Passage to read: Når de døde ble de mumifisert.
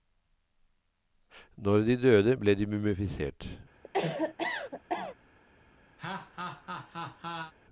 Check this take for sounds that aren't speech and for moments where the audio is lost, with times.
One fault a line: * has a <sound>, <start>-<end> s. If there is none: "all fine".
* has a cough, 3.8-5.2 s
* has a laugh, 6.0-7.5 s